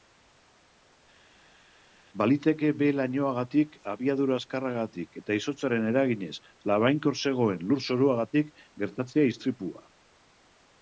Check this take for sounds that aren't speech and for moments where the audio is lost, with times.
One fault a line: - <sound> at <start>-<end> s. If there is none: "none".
none